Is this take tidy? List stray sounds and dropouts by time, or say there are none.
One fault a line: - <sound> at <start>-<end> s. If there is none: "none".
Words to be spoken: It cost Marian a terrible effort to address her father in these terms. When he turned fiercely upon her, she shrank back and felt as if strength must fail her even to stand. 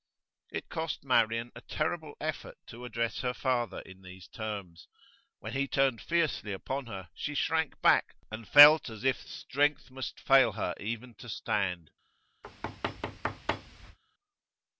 - thud at 12.4-14.0 s